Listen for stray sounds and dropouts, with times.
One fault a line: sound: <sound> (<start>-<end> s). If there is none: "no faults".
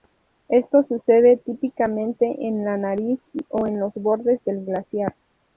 no faults